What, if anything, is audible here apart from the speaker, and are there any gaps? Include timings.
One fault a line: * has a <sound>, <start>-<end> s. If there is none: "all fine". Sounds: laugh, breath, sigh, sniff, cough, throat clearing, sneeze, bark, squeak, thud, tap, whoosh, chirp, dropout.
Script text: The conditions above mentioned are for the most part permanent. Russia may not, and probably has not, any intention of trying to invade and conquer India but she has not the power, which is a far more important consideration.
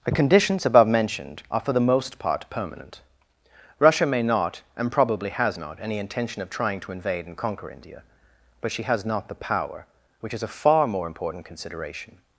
all fine